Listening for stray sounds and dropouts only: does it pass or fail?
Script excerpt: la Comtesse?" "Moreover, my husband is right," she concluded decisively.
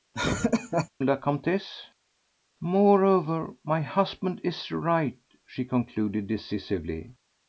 fail